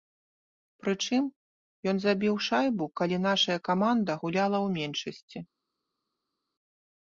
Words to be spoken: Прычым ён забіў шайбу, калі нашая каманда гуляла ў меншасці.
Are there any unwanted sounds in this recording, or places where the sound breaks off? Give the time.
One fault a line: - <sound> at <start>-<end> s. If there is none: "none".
none